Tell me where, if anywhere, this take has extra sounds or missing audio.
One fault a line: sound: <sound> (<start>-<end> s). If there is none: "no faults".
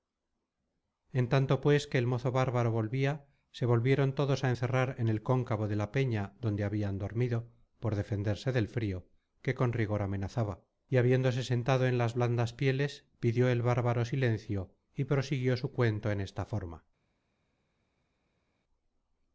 no faults